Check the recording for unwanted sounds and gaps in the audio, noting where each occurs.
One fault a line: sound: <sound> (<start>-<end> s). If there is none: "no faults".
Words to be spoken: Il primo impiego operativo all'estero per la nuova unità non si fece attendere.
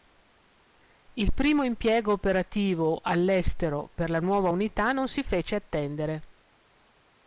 no faults